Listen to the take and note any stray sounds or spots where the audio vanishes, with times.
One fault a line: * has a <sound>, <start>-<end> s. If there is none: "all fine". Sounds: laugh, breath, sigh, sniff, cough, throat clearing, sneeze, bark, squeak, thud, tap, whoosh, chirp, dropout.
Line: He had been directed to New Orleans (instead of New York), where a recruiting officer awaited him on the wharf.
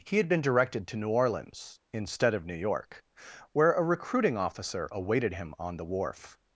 all fine